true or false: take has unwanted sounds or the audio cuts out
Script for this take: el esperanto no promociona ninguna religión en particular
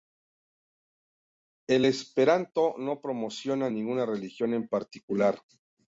false